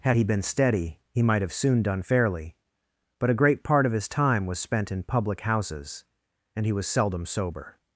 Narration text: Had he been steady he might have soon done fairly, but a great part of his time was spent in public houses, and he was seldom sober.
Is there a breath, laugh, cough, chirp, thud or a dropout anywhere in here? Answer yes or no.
no